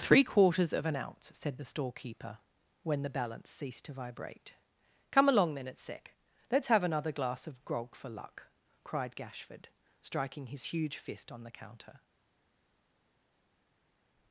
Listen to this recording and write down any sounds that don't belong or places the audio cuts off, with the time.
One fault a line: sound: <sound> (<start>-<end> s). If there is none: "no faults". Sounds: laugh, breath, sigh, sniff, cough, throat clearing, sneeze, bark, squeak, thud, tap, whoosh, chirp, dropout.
no faults